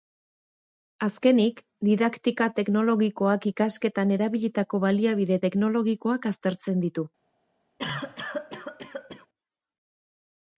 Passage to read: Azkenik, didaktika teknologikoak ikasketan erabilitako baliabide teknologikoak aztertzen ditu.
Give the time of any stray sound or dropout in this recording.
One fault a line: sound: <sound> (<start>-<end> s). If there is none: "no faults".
sound: cough (7.8-9.3 s)